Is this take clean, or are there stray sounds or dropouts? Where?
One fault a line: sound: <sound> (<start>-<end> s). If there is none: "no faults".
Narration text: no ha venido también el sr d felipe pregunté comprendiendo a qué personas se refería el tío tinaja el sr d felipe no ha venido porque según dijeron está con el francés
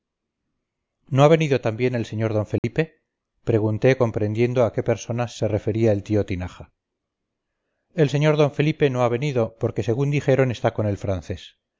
sound: dropout (2.6-2.6 s)